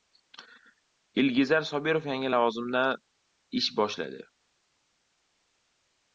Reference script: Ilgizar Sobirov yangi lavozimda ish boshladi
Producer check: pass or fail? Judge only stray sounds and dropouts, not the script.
pass